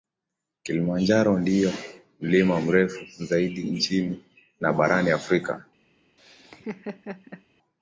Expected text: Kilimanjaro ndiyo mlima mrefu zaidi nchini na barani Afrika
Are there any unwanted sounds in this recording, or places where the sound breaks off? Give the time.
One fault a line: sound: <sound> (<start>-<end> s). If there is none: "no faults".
sound: laugh (6.2-7.4 s)